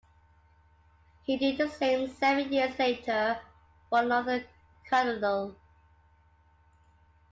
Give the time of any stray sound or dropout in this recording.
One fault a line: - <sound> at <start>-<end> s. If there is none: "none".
none